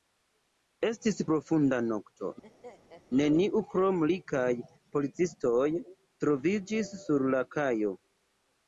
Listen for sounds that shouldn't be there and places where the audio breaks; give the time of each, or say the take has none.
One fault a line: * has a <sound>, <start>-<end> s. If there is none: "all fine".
* has a laugh, 2.4-3.0 s